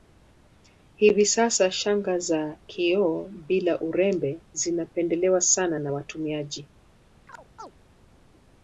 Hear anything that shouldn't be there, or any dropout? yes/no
yes